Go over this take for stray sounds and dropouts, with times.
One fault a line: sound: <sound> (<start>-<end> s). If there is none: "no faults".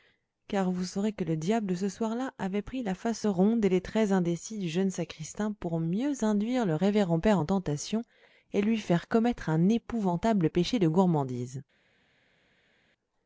no faults